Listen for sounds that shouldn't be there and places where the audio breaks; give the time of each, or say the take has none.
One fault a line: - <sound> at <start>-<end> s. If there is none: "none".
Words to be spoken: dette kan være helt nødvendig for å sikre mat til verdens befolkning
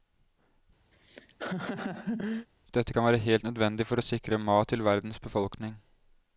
- laugh at 0.9-2.5 s